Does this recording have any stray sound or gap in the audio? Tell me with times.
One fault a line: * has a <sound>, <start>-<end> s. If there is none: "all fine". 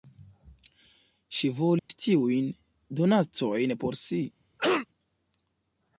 * has a dropout, 1.8-1.9 s
* has a cough, 4.6-4.9 s